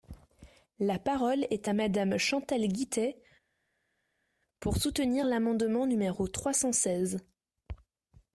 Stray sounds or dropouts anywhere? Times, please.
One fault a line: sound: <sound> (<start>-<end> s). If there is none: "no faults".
no faults